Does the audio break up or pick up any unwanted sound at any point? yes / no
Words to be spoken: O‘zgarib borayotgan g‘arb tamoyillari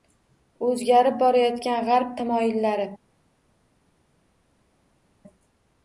no